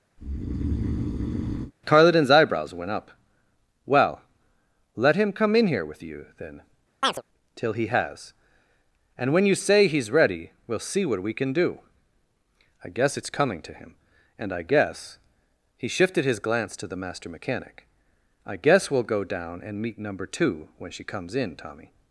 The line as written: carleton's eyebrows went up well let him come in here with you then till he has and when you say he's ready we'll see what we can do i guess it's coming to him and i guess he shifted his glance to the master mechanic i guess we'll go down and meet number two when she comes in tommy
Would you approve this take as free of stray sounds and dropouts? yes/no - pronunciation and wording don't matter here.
no